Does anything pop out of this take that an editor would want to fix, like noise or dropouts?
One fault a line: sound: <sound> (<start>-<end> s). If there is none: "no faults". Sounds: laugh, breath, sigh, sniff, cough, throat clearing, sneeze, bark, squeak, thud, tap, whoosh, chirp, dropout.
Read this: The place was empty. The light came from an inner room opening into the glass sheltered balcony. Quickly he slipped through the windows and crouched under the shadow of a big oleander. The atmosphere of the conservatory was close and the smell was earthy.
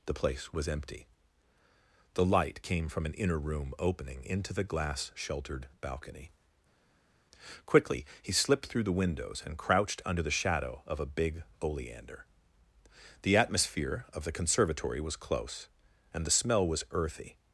no faults